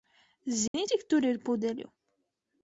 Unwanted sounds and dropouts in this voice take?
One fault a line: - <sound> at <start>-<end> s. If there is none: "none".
- dropout at 0.7-0.7 s